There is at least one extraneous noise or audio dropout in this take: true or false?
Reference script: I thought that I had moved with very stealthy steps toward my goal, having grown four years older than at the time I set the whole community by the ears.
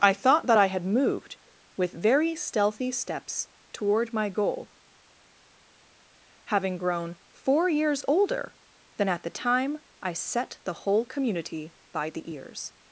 false